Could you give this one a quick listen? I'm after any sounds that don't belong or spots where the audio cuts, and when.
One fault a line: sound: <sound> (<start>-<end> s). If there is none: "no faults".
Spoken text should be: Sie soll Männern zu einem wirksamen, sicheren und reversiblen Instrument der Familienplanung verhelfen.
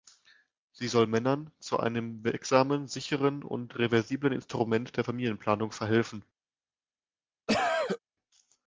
sound: cough (7.5-8.0 s)